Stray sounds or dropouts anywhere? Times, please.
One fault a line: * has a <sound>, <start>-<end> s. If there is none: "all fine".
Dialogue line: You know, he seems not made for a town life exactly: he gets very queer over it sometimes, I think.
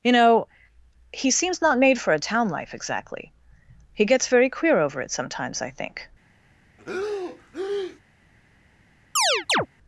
* has a breath, 6.8-8.0 s
* has a chirp, 9.2-9.7 s